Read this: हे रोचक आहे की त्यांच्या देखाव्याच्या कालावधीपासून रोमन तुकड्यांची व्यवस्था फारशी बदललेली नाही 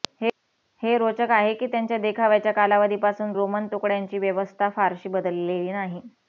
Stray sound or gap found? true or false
false